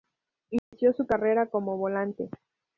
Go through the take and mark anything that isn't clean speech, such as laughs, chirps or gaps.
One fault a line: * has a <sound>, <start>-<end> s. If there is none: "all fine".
* has a dropout, 0.6-0.7 s